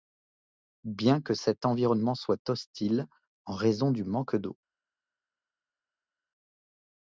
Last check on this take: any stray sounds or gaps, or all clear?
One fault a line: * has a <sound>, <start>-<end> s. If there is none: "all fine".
all fine